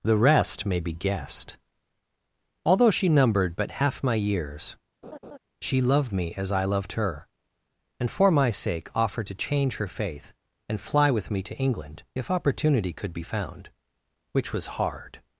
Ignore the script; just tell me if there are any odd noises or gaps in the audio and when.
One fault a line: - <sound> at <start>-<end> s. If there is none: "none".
- laugh at 5.0-5.4 s